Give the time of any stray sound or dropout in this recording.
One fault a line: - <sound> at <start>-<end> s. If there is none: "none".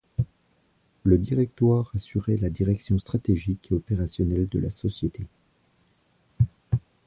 none